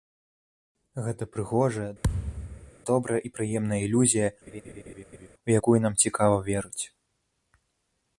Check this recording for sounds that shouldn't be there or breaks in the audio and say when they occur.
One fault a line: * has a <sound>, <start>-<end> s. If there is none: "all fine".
* has a thud, 2.0-2.7 s
* has a laugh, 4.5-5.3 s